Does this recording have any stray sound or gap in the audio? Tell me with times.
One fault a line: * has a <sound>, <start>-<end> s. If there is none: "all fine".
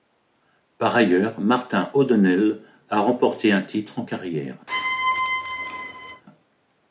* has a squeak, 4.7-6.2 s